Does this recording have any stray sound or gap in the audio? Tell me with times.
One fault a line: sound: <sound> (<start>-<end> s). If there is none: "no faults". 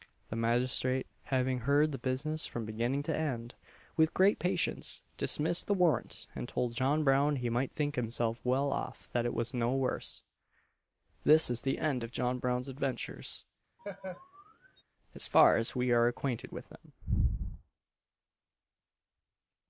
sound: laugh (13.8-14.8 s)